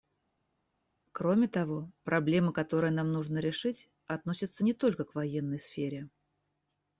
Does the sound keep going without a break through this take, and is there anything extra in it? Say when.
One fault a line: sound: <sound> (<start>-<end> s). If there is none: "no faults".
no faults